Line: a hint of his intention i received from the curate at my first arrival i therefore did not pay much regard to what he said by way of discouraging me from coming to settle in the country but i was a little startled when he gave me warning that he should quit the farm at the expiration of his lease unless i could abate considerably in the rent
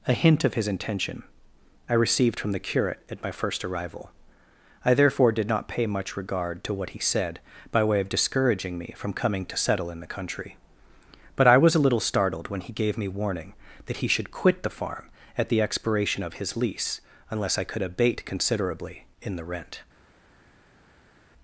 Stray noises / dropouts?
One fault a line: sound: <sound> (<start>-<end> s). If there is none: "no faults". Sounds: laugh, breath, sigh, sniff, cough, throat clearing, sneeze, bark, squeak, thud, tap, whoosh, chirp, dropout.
no faults